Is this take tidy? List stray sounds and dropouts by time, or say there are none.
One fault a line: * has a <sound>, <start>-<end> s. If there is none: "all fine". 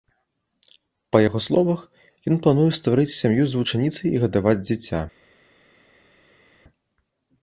all fine